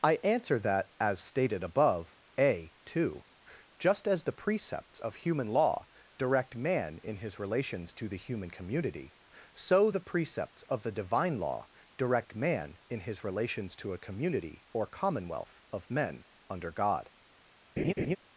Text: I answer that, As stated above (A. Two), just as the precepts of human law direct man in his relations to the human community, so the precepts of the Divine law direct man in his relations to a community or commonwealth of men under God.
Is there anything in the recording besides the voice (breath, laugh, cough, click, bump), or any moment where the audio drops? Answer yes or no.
yes